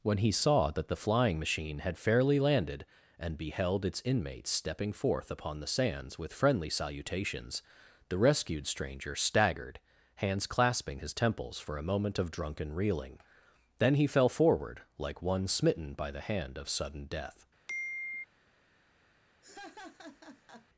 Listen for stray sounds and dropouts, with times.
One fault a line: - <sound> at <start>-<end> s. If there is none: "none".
- sigh at 17.7-18.2 s
- laugh at 19.4-20.7 s